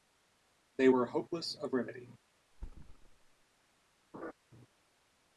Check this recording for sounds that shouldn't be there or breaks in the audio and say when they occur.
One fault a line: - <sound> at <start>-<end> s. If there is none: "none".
- thud at 2.5-3.5 s
- laugh at 4.1-4.3 s